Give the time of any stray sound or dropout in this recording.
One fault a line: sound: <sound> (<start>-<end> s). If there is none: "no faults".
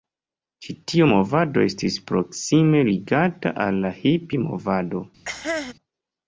sound: cough (5.3-5.7 s)